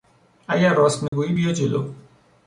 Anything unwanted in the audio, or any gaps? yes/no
yes